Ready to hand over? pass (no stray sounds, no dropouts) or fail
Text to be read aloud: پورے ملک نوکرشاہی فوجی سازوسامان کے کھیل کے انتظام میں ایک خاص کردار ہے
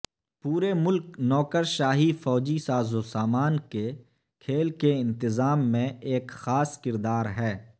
pass